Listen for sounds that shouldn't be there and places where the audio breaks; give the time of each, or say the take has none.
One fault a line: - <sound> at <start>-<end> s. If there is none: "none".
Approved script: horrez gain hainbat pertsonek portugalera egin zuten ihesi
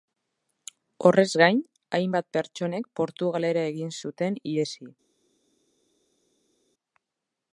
none